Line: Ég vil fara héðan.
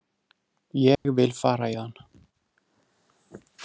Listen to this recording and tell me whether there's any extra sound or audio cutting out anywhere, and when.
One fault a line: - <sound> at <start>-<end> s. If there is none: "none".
- dropout at 1.0-1.0 s